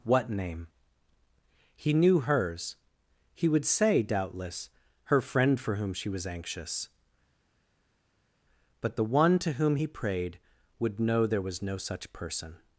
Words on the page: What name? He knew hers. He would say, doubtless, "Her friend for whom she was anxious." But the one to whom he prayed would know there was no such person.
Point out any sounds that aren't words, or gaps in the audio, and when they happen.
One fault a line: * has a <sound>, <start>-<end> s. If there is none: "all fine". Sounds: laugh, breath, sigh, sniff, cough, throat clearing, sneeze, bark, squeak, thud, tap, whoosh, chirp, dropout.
all fine